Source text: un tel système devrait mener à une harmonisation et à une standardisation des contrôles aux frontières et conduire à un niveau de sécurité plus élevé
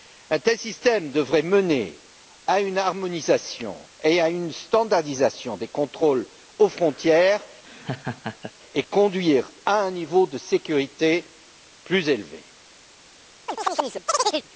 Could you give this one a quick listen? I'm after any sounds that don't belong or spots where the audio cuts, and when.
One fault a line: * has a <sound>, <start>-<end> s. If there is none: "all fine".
* has a laugh, 7.6-8.5 s
* has a chirp, 13.5-14.5 s